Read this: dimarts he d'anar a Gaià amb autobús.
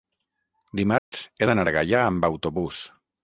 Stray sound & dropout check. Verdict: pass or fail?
fail